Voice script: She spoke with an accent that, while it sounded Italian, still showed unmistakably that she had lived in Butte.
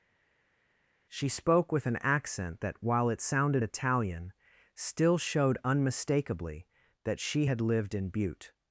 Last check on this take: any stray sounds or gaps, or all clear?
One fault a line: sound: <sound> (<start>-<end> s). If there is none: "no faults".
no faults